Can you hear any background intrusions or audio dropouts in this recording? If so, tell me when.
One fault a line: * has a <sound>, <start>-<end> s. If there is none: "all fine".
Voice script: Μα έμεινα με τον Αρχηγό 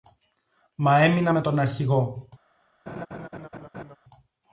* has a laugh, 2.9-4.0 s